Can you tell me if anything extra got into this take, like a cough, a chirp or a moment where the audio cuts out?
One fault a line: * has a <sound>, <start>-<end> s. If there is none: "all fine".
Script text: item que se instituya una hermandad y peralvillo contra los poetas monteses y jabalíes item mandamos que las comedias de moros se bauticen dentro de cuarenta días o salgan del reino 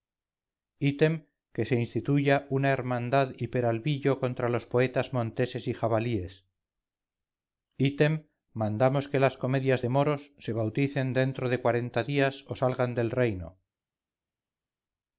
all fine